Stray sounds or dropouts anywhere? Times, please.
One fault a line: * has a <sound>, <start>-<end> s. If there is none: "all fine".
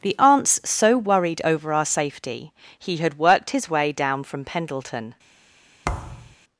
* has a thud, 5.8-6.4 s